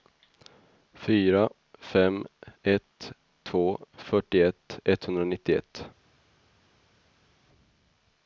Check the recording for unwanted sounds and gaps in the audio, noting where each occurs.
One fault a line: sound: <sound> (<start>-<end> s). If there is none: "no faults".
no faults